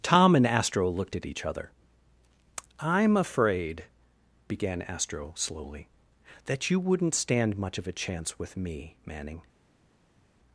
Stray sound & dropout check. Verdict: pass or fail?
pass